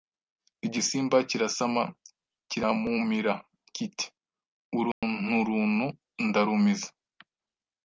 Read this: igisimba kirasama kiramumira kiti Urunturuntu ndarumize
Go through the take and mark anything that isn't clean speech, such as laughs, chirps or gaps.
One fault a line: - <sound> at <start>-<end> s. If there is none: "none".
- dropout at 4.9-5.0 s